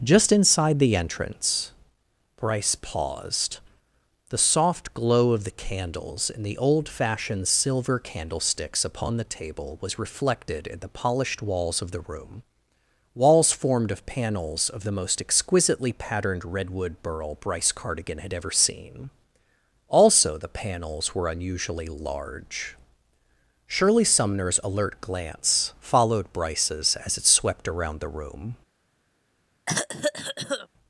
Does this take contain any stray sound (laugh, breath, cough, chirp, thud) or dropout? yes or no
yes